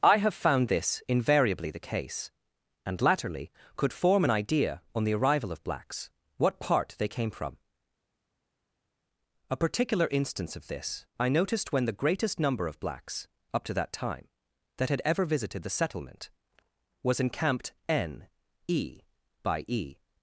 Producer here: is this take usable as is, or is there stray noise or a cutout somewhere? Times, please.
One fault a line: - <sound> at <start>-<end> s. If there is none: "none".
none